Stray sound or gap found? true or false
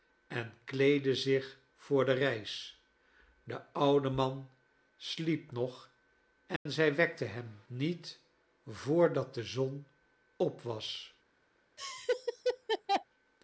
true